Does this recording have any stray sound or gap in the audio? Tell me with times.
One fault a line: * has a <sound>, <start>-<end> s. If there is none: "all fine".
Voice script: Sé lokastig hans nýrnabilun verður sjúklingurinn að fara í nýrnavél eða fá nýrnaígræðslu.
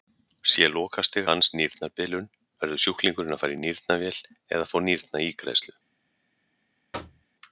* has a thud, 6.9-7.3 s